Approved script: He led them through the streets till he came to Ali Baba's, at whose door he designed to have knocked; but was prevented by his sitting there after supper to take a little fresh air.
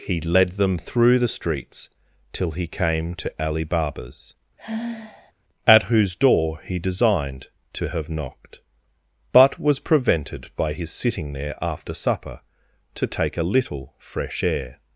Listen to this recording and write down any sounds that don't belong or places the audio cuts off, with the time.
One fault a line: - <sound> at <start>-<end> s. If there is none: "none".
- sigh at 4.6-5.3 s